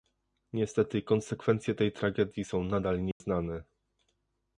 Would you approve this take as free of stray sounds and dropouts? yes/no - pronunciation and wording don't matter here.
no